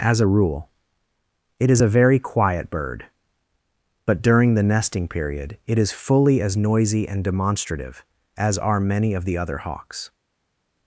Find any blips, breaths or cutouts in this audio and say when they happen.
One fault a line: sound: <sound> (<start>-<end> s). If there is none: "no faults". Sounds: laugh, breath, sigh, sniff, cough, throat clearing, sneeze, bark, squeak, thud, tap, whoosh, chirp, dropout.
no faults